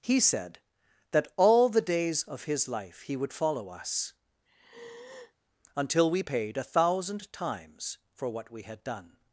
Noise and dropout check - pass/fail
fail